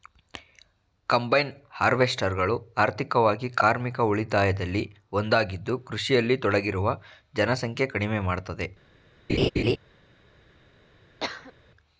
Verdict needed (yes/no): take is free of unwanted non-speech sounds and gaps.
no